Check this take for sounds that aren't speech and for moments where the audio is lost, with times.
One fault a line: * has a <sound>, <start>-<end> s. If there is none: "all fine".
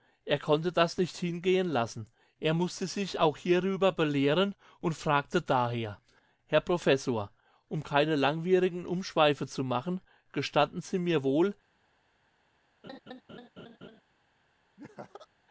* has a laugh, 12.8-14.0 s
* has a laugh, 14.8-15.3 s